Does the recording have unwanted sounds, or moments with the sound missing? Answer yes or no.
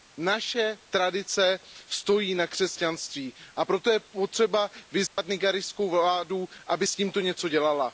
yes